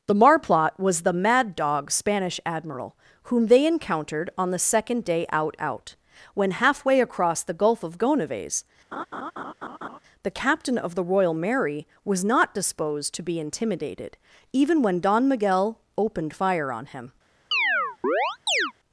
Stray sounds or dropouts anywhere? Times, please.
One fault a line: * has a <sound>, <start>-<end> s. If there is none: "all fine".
* has a laugh, 8.9-10.0 s
* has a chirp, 17.5-18.7 s